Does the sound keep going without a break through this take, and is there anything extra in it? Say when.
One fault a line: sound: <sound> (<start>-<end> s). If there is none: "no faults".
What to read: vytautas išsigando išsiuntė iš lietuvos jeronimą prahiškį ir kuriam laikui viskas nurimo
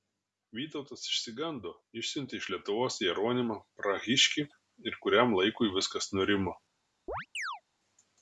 sound: chirp (7.1-7.6 s)